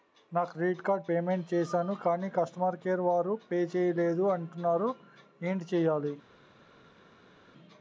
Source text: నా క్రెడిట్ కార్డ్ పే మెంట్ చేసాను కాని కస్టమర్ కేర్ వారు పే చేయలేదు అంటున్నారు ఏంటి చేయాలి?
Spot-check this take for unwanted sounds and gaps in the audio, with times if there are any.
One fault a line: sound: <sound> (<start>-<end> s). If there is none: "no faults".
no faults